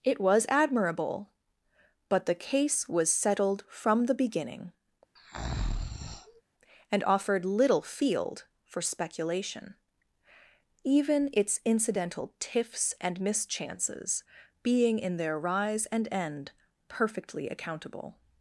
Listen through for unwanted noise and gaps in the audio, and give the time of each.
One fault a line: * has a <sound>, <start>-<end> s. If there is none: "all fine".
* has a breath, 5.2-6.4 s